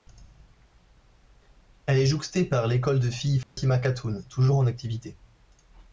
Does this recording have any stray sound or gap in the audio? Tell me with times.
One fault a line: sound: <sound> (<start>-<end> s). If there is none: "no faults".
sound: dropout (3.4-3.6 s)